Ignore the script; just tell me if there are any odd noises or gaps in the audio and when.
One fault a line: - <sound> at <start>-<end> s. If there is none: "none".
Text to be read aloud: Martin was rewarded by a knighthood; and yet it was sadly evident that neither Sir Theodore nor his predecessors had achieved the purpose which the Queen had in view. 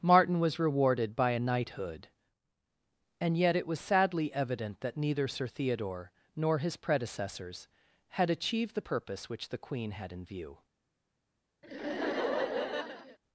- laugh at 11.6-13.2 s